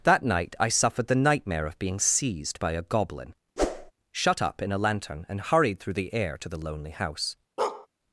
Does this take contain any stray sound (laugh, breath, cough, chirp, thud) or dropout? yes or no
yes